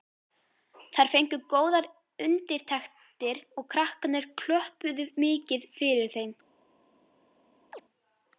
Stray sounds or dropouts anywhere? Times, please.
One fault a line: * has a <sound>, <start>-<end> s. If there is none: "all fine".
* has a chirp, 7.7-7.8 s